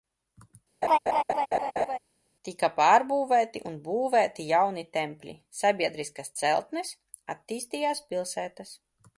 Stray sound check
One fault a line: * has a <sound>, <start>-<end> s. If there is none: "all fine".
* has a laugh, 0.8-2.0 s